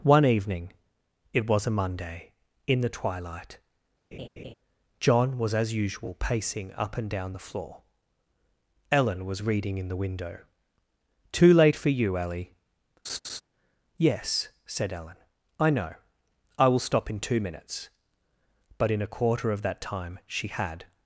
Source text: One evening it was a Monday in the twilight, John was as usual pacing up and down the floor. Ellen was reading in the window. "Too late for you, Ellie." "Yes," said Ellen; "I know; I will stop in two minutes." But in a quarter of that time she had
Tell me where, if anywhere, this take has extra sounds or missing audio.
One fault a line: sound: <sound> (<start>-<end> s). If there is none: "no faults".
sound: laugh (4.1-4.5 s)
sound: laugh (13.0-13.4 s)